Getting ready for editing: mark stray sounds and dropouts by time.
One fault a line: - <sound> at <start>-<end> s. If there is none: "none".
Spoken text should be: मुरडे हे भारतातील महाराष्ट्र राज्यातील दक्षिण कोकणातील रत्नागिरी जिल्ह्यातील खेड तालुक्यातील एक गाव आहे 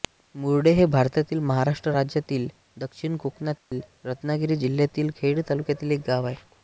- dropout at 3.6-3.7 s